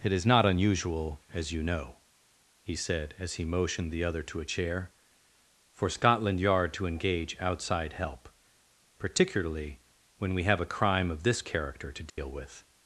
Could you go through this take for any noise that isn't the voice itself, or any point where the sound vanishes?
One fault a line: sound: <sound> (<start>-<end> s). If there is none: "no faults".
sound: dropout (12.1-12.2 s)